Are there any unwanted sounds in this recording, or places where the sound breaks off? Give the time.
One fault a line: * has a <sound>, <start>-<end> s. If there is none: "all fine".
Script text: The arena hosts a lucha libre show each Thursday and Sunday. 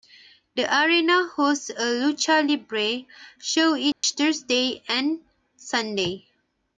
* has a dropout, 3.9-4.0 s